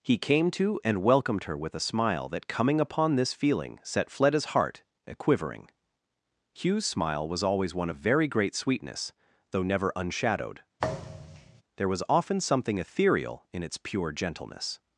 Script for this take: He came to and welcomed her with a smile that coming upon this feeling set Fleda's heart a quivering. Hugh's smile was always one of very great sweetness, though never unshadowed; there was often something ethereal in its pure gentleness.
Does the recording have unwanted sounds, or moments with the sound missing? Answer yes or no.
yes